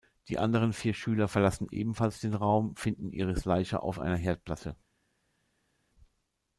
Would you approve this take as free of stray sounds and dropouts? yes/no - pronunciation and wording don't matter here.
yes